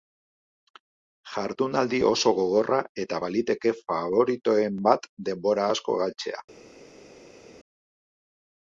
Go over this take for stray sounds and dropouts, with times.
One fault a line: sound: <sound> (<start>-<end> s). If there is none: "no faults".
no faults